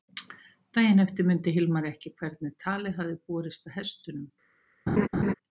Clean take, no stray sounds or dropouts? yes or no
no